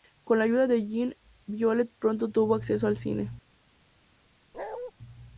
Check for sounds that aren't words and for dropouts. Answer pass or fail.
fail